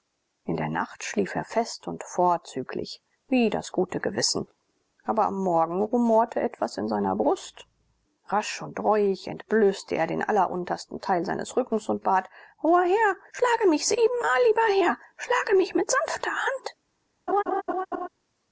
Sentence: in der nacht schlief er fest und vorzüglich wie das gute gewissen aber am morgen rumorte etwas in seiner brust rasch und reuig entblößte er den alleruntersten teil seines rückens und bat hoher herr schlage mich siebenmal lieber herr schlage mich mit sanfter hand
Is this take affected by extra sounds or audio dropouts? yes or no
yes